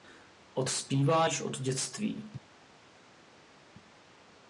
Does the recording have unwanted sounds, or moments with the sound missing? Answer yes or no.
no